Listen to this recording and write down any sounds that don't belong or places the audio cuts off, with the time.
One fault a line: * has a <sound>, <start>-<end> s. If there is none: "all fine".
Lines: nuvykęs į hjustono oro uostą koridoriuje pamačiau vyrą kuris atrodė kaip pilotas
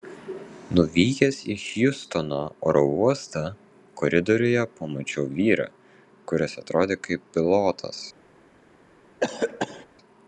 * has a cough, 9.2-9.9 s